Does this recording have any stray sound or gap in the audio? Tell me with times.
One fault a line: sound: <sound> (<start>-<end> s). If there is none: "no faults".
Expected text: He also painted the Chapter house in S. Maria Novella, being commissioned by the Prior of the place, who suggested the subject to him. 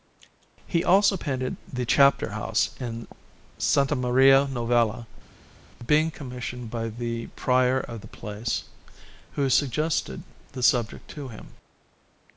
no faults